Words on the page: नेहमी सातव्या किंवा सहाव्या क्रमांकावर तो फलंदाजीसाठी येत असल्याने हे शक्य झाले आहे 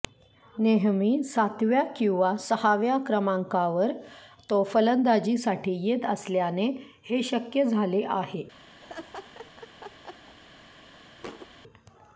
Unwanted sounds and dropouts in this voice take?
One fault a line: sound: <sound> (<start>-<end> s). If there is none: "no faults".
sound: laugh (8.8-10.4 s)
sound: thud (11.2-11.5 s)